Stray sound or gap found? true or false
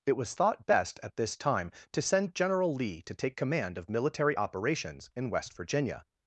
false